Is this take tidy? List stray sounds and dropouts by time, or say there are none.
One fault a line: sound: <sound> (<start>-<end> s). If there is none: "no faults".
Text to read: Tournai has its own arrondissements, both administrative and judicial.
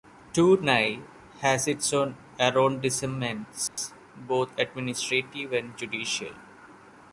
sound: dropout (3.7-3.8 s)